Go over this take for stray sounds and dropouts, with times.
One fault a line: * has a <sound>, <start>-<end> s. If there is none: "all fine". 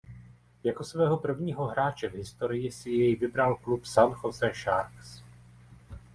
all fine